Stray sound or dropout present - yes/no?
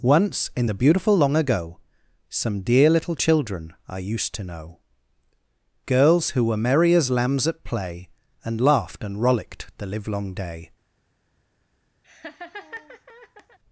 yes